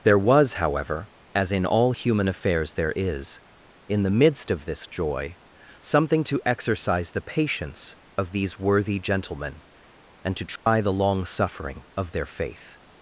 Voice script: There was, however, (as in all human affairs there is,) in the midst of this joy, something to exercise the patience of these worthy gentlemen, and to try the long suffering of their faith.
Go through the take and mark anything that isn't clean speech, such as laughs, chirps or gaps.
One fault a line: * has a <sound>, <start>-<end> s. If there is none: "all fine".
* has a dropout, 10.6-10.7 s